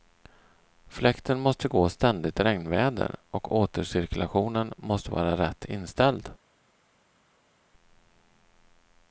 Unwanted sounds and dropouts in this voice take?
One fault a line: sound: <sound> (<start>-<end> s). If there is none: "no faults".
no faults